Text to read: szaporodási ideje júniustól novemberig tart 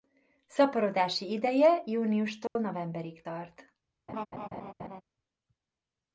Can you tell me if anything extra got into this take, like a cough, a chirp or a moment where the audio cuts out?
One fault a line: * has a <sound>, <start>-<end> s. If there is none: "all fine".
* has a dropout, 2.5-2.6 s
* has a laugh, 4.1-5.0 s